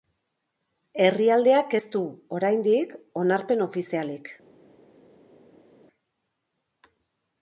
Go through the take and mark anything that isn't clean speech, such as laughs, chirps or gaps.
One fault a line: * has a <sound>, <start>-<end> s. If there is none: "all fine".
all fine